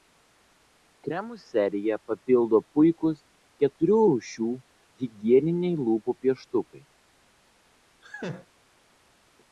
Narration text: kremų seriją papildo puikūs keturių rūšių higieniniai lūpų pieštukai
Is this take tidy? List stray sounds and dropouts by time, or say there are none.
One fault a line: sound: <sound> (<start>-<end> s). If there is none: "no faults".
sound: laugh (8.0-8.5 s)